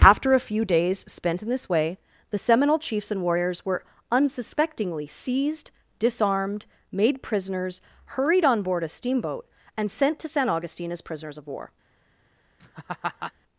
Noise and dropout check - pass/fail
fail